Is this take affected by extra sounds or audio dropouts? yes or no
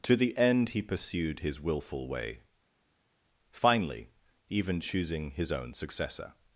no